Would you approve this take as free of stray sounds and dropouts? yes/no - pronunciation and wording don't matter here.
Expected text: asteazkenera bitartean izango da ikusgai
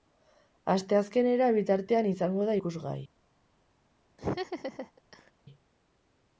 no